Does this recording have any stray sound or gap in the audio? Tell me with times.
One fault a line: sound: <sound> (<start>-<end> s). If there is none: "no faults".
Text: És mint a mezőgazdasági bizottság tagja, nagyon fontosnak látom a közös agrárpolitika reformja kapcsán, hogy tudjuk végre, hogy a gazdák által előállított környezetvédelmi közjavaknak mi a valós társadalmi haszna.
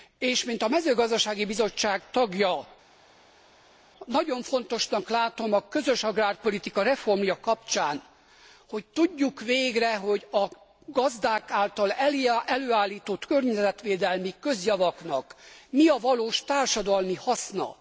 no faults